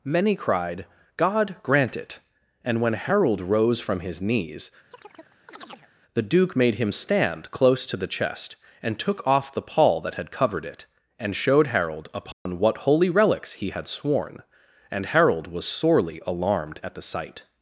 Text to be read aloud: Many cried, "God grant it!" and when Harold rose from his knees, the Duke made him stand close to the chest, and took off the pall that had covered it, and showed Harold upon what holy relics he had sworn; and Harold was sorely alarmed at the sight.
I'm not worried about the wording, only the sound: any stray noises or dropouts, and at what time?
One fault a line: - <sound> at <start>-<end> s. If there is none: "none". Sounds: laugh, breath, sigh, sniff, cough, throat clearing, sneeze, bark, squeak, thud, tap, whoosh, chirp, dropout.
- chirp at 4.9-5.9 s
- dropout at 12.3-12.5 s